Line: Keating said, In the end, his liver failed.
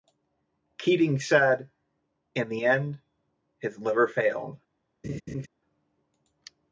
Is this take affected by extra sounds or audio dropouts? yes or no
yes